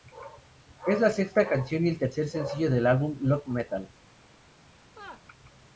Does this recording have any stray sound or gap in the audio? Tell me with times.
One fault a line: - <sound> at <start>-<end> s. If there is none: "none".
- laugh at 4.8-5.3 s